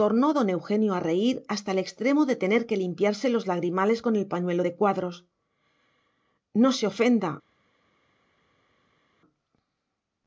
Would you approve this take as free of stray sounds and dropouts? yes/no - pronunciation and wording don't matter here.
yes